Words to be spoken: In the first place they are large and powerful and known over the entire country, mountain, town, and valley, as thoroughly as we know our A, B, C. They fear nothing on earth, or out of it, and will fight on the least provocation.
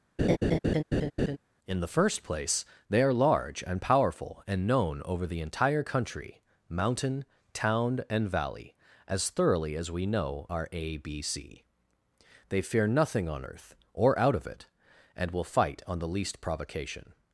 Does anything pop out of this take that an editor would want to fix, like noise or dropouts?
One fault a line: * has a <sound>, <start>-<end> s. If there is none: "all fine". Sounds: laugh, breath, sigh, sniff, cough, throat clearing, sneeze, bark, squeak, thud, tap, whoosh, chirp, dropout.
* has a laugh, 0.2-1.4 s